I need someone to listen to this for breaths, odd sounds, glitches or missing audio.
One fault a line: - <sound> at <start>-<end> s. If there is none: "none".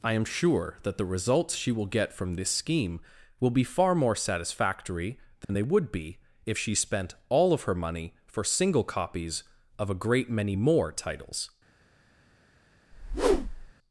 - dropout at 5.4-5.5 s
- whoosh at 12.9-13.7 s